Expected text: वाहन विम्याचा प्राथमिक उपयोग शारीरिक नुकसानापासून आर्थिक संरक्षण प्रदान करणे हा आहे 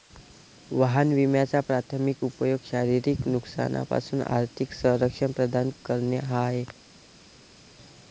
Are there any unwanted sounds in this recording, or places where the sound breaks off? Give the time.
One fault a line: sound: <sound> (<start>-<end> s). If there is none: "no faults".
no faults